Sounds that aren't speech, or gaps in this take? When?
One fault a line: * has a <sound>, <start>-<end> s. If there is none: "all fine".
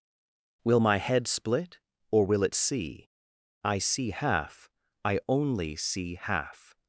all fine